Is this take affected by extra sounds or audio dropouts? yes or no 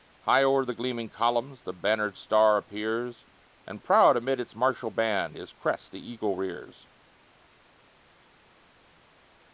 no